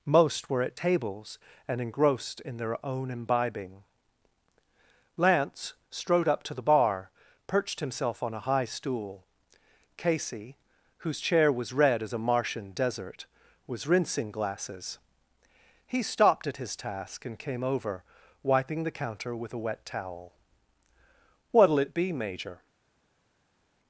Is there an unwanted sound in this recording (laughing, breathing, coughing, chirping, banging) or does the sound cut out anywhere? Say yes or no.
no